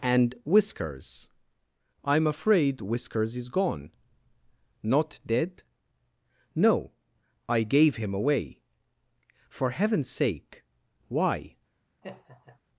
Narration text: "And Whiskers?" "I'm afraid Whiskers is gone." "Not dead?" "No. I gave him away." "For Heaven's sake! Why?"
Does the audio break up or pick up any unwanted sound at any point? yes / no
yes